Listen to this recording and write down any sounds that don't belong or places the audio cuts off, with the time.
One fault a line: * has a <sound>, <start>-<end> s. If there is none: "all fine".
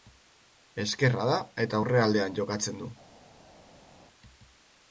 all fine